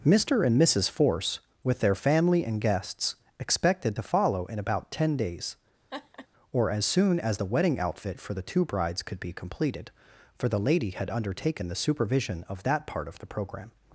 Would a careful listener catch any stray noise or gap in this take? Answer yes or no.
yes